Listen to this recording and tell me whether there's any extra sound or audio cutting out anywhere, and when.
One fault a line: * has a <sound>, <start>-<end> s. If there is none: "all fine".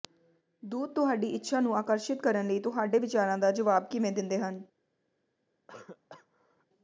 * has a cough, 5.7-6.7 s